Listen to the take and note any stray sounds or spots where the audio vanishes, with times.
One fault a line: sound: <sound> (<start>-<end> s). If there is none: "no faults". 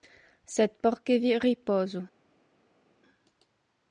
no faults